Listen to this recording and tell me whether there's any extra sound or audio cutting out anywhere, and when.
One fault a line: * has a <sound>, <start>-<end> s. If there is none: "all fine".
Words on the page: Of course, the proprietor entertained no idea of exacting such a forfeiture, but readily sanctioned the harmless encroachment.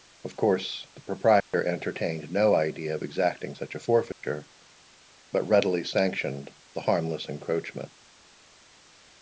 * has a dropout, 1.4-1.5 s
* has a dropout, 4.1-4.2 s